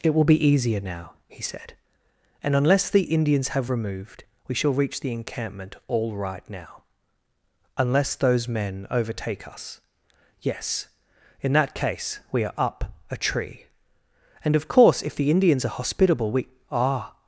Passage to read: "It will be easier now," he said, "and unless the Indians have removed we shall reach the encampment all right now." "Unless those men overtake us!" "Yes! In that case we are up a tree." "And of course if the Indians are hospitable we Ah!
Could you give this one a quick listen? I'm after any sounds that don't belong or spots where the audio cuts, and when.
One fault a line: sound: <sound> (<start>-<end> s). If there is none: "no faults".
no faults